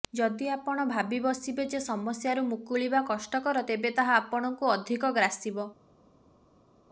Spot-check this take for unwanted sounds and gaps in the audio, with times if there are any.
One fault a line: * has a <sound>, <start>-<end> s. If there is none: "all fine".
all fine